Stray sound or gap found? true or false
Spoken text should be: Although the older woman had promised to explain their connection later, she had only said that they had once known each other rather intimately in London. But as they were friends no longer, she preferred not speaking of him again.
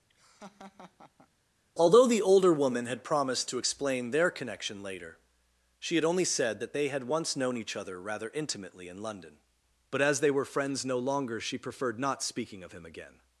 true